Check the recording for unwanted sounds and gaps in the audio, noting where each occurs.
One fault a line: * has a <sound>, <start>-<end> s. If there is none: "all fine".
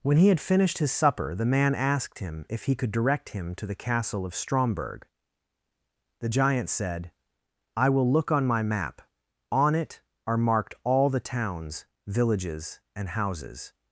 all fine